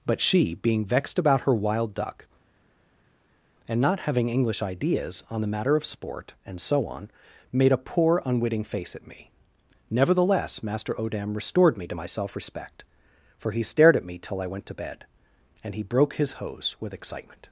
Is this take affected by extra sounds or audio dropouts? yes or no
no